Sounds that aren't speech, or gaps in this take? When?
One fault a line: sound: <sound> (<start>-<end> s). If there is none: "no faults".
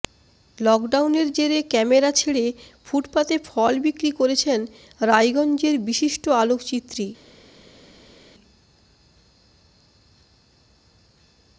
no faults